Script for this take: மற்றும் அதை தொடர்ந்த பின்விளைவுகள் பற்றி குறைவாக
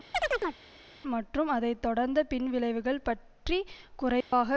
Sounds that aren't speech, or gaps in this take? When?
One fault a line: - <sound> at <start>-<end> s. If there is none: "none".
- chirp at 0.1-0.6 s
- dropout at 4.2-4.3 s